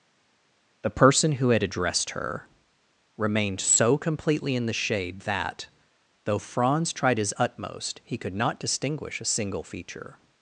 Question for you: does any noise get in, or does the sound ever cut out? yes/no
no